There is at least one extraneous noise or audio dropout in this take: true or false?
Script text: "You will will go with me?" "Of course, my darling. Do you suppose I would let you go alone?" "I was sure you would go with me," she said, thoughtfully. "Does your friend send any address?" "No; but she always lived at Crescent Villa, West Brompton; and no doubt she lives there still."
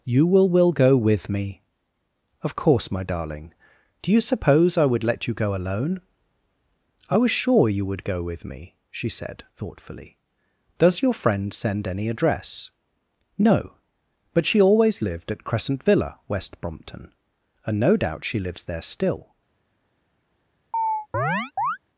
true